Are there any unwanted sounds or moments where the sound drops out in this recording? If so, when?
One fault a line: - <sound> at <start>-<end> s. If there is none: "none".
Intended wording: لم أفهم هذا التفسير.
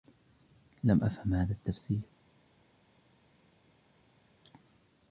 none